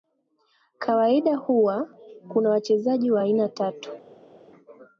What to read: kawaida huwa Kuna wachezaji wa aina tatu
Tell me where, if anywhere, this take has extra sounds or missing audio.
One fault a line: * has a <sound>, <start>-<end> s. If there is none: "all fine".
all fine